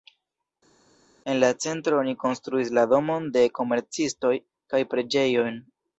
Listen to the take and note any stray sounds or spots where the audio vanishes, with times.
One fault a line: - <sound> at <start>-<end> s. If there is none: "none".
none